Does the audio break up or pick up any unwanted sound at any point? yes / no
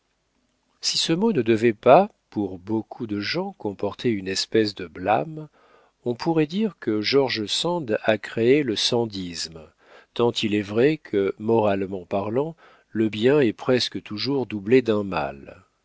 no